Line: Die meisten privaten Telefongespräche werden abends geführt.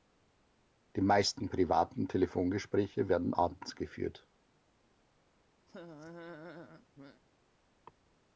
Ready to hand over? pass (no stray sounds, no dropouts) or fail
fail